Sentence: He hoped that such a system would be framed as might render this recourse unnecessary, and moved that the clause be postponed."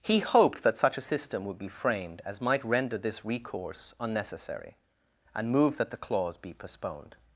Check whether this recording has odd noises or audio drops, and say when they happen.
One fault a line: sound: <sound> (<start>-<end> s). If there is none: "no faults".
no faults